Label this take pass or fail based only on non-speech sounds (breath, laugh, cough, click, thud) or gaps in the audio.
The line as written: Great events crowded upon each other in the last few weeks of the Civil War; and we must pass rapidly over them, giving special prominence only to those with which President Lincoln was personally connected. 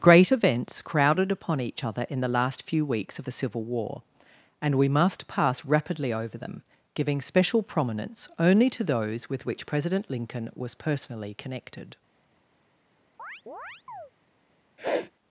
fail